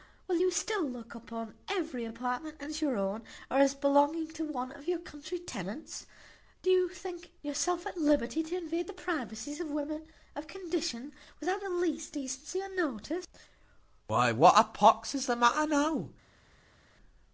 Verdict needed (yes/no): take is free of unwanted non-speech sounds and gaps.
yes